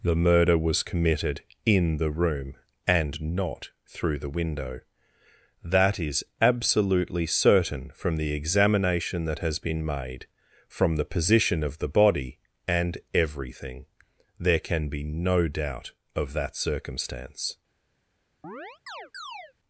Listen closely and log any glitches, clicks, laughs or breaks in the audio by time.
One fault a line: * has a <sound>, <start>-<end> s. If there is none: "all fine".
* has a chirp, 18.4-19.5 s